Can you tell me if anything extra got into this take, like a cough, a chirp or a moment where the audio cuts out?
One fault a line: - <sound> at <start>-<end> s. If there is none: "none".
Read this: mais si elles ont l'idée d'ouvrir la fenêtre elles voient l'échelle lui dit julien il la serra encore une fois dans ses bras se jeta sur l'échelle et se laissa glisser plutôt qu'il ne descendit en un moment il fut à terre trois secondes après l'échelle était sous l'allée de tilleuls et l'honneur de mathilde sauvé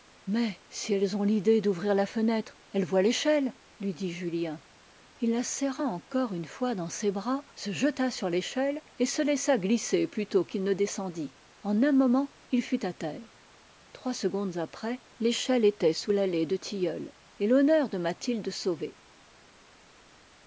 none